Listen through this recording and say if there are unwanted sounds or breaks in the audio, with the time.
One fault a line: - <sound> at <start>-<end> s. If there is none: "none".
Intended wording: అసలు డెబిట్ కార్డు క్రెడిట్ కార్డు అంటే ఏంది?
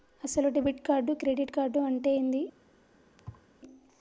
- thud at 3.2-3.5 s